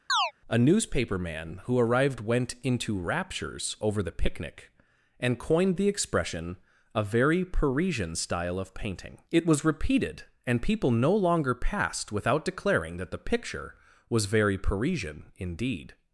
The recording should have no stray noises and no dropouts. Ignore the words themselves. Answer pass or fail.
fail